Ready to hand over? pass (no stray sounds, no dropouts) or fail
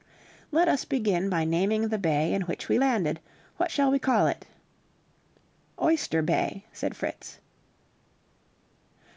pass